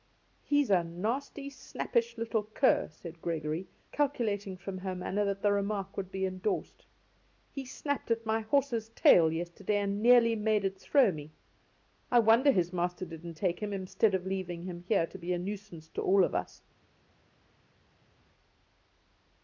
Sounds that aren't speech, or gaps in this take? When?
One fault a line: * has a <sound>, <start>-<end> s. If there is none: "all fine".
all fine